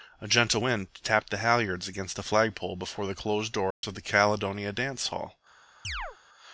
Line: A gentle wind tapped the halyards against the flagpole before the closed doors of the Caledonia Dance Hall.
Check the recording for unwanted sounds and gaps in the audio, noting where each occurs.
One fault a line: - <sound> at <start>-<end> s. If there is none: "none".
- dropout at 3.7-3.8 s
- chirp at 5.8-6.2 s